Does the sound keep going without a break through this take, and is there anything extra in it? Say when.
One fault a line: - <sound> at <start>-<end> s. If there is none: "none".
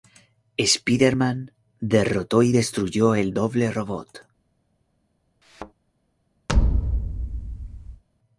- thud at 5.4-5.7 s
- thud at 6.5-8.0 s